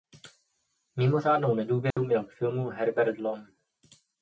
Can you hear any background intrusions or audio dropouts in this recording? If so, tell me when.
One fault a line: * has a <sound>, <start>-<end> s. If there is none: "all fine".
* has a dropout, 1.9-2.0 s